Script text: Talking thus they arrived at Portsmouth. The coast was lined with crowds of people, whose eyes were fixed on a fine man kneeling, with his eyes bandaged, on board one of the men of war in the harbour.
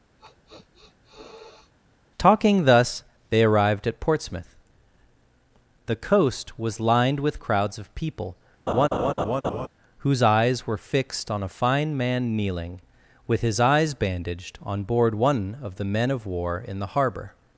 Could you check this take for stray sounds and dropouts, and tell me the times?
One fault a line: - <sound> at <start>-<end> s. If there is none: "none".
- sniff at 0.2-1.7 s
- laugh at 8.7-9.7 s